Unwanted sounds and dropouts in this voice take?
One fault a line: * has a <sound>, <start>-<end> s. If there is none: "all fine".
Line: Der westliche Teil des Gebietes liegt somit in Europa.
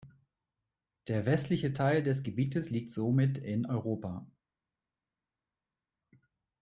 all fine